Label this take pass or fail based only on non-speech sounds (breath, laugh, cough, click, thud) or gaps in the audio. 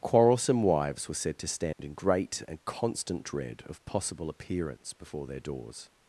fail